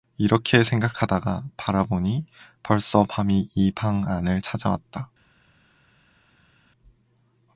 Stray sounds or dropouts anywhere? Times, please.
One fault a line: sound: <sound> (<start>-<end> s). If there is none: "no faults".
no faults